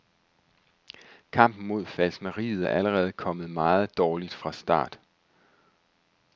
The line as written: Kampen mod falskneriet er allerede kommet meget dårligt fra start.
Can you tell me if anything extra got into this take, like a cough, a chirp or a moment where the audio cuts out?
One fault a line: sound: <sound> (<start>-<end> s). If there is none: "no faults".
no faults